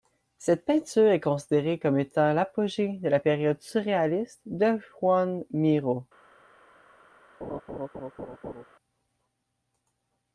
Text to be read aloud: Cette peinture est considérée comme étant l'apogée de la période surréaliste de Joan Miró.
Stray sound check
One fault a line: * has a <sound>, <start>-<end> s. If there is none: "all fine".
* has a laugh, 7.4-8.7 s